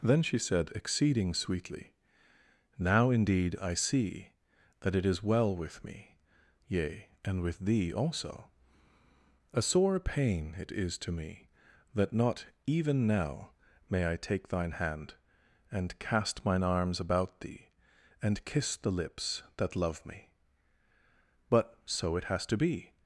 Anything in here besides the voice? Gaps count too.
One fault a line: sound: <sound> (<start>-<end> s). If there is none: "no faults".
no faults